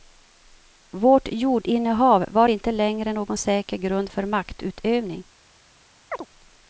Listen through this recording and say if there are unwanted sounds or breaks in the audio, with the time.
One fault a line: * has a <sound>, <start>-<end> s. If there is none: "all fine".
* has a chirp, 6.1-6.3 s